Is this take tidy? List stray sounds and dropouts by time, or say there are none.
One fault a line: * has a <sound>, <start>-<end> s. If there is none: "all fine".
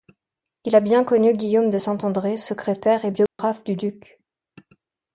* has a dropout, 3.3-3.4 s